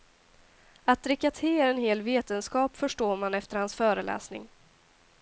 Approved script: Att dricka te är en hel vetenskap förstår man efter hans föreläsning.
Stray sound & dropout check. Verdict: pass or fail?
pass